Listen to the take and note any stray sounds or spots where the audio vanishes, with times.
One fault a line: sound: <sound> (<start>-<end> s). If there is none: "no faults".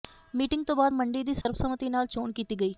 sound: dropout (1.4-1.5 s)